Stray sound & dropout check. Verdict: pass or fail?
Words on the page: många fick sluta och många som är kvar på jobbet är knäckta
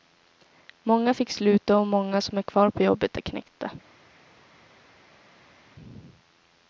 pass